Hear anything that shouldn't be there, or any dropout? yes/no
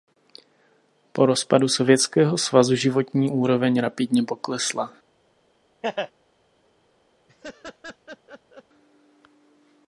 yes